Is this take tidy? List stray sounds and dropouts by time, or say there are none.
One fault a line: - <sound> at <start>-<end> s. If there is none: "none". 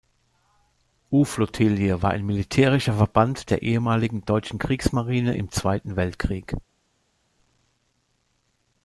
none